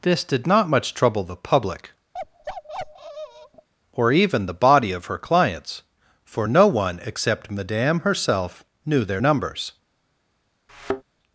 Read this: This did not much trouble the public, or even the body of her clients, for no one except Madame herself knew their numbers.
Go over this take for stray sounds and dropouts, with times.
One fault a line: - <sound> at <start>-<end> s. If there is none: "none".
- bark at 2.1-3.7 s
- thud at 10.7-11.0 s